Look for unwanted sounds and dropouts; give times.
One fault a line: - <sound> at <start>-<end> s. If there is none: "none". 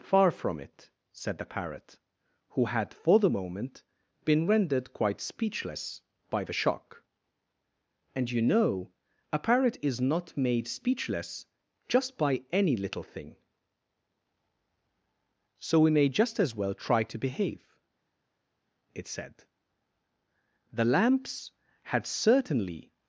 none